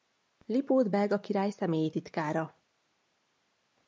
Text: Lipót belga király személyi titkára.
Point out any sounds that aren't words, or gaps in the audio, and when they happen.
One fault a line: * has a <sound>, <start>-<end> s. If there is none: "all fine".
all fine